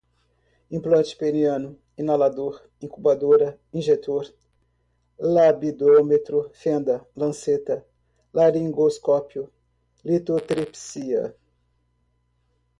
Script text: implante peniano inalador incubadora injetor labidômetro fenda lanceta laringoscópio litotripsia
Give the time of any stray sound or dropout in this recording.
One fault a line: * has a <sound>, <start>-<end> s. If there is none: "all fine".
all fine